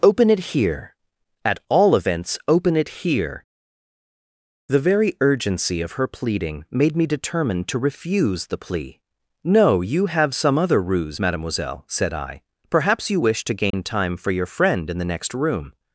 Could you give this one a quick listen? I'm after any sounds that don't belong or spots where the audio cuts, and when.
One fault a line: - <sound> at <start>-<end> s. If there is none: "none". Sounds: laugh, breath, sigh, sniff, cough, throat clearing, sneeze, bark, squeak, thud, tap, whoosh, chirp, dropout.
- dropout at 13.7-13.7 s